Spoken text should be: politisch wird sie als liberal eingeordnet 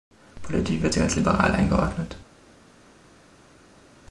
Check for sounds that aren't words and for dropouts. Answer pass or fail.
pass